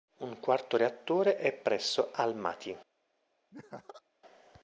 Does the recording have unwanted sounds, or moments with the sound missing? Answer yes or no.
yes